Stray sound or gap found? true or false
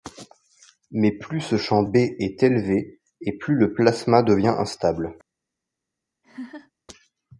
true